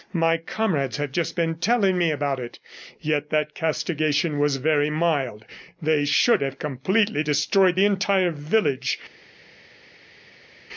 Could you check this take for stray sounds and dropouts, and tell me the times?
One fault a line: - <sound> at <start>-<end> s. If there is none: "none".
none